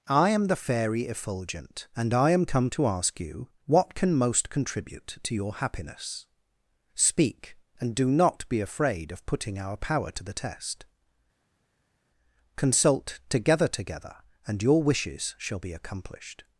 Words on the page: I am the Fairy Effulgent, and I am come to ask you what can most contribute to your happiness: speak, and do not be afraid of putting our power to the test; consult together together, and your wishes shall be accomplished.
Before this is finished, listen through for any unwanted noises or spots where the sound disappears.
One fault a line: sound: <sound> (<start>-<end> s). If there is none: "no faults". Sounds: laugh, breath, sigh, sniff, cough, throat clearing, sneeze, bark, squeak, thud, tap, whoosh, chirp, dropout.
no faults